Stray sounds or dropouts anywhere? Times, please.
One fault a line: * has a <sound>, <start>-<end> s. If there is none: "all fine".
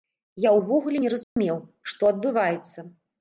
* has a dropout, 1.2-1.4 s